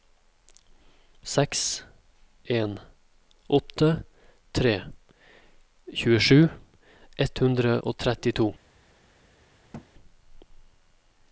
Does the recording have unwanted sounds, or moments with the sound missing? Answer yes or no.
yes